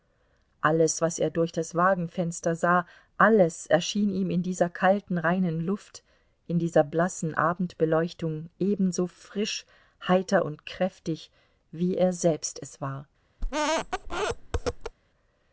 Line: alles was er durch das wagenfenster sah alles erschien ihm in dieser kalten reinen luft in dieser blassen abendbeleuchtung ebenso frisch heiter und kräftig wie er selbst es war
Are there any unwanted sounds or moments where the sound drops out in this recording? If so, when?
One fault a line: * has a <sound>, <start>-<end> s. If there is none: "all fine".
* has a squeak, 13.4-15.0 s